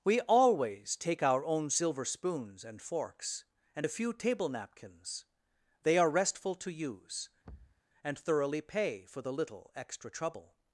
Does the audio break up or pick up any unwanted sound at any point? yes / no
yes